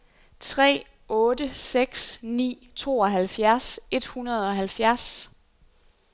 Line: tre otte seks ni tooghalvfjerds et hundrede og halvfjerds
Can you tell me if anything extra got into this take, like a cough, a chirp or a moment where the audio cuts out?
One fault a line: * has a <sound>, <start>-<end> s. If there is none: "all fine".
all fine